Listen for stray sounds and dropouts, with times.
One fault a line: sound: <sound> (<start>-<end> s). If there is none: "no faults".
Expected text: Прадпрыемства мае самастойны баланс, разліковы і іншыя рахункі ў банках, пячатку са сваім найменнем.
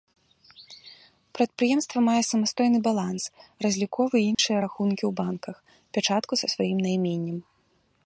sound: dropout (4.3-4.4 s)